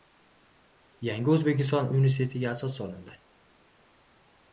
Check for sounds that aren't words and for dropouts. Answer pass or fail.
pass